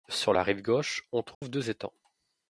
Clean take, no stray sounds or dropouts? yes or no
no